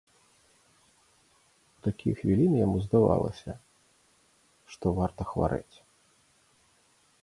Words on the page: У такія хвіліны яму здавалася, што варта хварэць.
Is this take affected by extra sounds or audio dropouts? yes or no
no